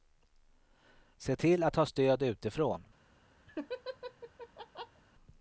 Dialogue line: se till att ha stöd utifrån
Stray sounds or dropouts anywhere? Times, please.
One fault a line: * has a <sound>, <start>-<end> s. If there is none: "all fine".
* has a laugh, 3.5-5.0 s